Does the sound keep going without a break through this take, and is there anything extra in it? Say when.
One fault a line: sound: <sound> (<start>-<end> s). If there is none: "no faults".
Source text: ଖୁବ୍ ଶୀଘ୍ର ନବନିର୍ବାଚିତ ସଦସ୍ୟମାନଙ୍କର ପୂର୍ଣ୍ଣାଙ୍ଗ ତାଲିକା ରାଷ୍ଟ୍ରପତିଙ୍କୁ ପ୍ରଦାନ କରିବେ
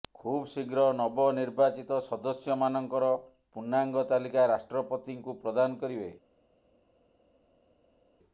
no faults